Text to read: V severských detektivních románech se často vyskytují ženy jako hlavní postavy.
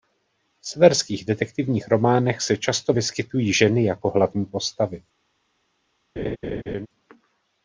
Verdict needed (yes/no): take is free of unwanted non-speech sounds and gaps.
no